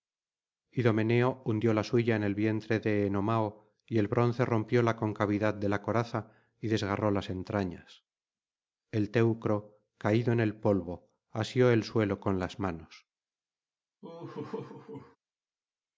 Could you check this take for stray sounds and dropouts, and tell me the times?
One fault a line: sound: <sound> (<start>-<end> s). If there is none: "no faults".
sound: laugh (14.0-15.2 s)